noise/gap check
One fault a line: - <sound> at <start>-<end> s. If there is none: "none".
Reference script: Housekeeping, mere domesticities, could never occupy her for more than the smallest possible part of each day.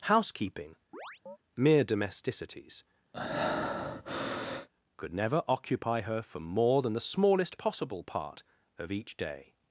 - chirp at 0.9-1.4 s
- breath at 3.1-4.7 s